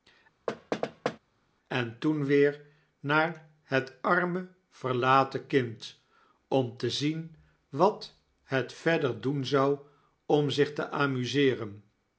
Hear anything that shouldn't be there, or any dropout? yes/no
yes